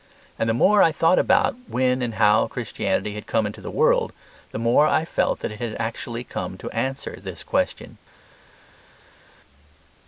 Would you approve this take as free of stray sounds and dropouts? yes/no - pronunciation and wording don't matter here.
yes